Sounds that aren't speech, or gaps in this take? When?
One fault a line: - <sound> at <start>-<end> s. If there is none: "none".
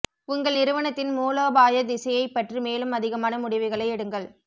none